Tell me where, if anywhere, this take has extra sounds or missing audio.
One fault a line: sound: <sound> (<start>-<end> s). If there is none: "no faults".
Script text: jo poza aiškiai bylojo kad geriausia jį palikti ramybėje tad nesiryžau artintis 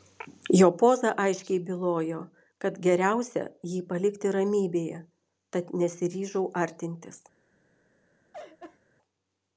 sound: laugh (8.3-8.8 s)